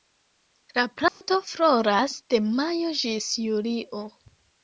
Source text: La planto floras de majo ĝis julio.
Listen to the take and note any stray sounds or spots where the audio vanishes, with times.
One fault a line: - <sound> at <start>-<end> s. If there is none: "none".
- dropout at 1.1-1.2 s